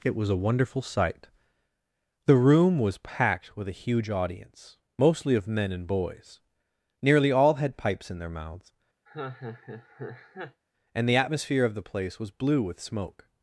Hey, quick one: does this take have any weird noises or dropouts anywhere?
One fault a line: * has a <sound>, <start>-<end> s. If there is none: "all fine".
* has a laugh, 9.1-10.6 s